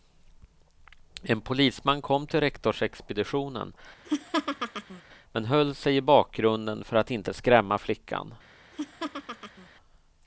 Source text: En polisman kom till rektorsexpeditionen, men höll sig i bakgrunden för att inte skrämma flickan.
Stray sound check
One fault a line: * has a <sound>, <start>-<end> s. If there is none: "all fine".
* has a laugh, 4.0-5.0 s
* has a laugh, 8.7-9.7 s